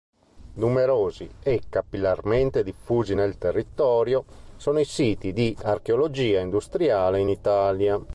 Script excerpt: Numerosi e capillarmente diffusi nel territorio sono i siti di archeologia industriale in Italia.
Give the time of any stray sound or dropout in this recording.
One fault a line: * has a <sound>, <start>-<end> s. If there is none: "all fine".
all fine